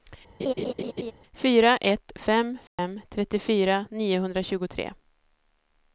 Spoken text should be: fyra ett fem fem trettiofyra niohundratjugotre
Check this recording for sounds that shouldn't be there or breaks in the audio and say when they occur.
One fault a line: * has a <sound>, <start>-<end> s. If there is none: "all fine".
* has a laugh, 0.4-1.1 s
* has a dropout, 2.7-2.8 s